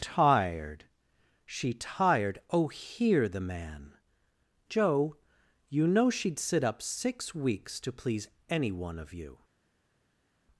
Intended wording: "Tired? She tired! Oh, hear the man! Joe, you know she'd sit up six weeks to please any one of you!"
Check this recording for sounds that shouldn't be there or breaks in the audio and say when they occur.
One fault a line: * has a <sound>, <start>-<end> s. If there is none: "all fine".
all fine